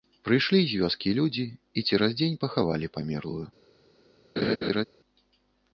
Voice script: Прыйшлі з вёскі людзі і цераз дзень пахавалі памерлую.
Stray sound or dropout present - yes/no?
yes